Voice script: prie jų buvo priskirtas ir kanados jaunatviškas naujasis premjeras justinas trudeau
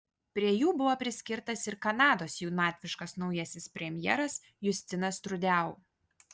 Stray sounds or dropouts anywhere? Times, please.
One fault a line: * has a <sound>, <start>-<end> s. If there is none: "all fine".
all fine